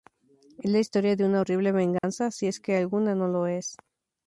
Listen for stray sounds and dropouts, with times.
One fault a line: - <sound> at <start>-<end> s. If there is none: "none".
- dropout at 2.0-2.0 s